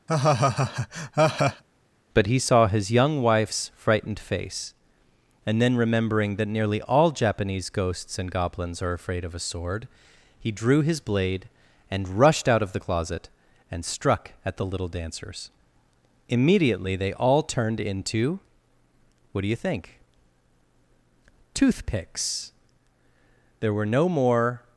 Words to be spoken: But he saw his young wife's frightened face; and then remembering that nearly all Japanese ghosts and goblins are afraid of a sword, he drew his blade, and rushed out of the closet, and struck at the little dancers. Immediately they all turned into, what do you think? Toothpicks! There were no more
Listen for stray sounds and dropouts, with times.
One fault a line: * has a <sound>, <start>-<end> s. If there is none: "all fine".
* has a laugh, 0.1-1.6 s